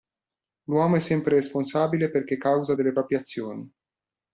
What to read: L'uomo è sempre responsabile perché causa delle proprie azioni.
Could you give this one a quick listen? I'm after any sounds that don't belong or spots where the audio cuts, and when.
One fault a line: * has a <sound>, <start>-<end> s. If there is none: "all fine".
all fine